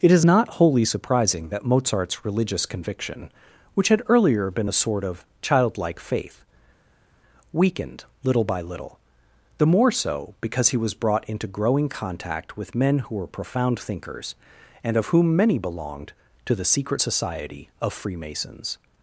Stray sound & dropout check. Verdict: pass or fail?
pass